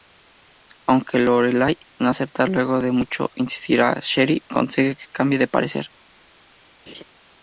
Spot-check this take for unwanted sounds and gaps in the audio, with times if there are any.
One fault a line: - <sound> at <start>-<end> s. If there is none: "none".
- laugh at 6.9-7.0 s